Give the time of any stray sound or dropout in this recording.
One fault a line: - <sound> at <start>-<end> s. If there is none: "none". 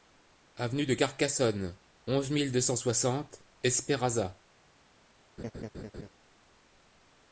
- laugh at 5.4-6.1 s